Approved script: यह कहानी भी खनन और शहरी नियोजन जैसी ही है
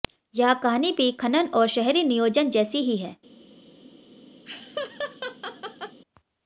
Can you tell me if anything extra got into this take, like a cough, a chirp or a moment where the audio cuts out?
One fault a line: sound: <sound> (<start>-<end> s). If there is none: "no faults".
sound: laugh (4.4-6.0 s)